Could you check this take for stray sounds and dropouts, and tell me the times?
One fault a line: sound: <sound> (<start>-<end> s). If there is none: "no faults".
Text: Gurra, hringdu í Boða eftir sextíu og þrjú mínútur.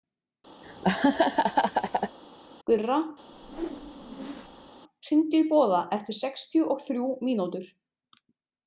sound: laugh (0.6-2.2 s)
sound: whoosh (3.3-4.7 s)